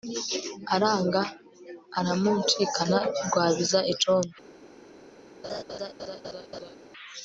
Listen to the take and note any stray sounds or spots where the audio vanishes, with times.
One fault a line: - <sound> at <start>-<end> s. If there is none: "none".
- laugh at 5.4-6.8 s